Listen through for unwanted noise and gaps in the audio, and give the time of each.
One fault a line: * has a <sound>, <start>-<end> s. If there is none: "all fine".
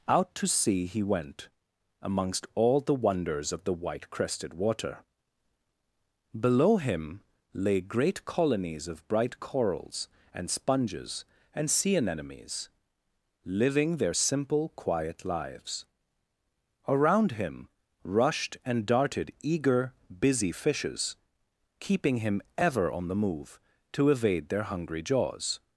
all fine